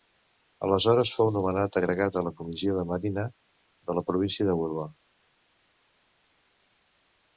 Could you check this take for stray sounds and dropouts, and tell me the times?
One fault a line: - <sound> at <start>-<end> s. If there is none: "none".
none